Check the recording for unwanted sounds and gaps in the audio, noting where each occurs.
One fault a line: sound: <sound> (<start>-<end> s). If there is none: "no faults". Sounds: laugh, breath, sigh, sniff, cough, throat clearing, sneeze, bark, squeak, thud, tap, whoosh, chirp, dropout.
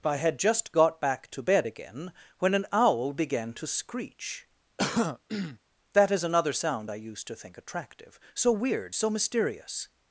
sound: throat clearing (4.8-5.6 s)